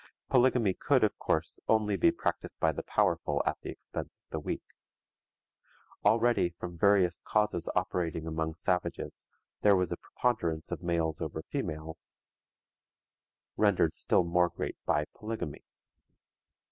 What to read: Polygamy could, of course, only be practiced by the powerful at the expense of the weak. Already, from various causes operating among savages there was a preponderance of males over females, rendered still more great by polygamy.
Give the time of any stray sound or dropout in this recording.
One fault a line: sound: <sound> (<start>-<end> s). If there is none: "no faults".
no faults